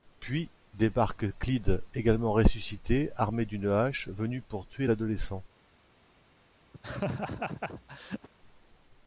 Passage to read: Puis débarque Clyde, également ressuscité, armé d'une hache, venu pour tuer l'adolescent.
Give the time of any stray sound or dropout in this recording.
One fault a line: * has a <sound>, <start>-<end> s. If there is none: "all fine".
* has a laugh, 6.7-8.3 s